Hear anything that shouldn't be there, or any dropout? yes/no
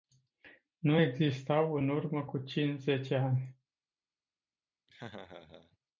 yes